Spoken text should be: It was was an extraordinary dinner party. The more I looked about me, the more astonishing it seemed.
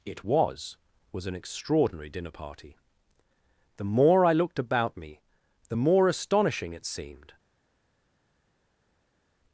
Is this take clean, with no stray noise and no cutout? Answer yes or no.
yes